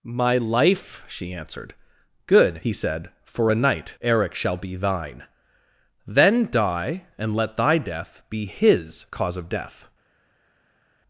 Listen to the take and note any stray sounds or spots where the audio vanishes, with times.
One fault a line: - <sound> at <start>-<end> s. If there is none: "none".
none